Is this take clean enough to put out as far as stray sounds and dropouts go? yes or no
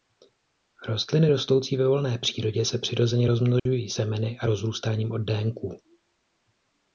no